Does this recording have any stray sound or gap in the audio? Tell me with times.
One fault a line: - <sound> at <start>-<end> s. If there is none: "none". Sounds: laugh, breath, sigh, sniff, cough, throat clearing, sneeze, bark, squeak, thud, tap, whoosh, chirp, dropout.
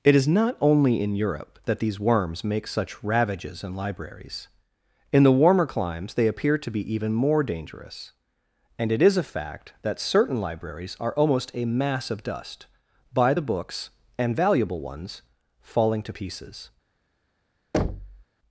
- thud at 17.7-18.2 s